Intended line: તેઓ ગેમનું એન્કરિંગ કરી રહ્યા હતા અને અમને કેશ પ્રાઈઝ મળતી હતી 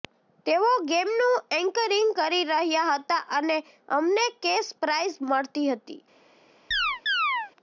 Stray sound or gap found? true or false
true